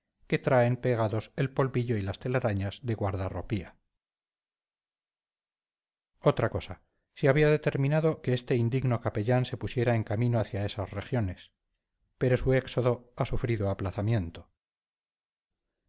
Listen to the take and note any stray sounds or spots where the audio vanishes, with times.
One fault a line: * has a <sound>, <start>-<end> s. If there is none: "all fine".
all fine